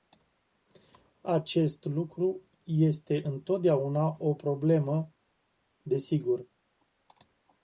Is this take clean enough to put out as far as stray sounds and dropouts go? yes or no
yes